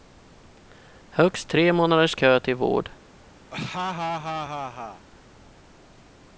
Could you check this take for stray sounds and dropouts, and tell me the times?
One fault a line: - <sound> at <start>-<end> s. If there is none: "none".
- laugh at 3.5-5.1 s